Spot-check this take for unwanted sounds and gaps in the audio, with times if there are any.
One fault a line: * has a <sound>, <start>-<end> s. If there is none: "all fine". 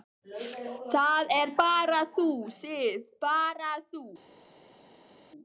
all fine